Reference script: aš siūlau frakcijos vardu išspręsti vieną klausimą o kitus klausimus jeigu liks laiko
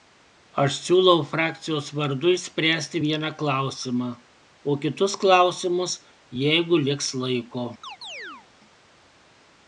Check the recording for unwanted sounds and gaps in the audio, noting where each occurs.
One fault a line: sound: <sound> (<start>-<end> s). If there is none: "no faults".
sound: chirp (7.8-8.5 s)